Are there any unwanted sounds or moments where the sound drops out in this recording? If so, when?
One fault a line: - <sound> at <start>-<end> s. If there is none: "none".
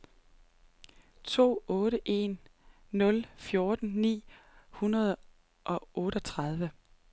none